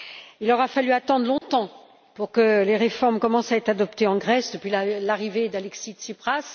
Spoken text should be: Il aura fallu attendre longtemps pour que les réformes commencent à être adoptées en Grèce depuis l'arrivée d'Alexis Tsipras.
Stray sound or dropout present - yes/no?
yes